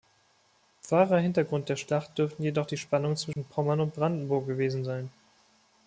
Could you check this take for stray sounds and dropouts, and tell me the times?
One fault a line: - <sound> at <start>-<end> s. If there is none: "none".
- dropout at 3.3-3.4 s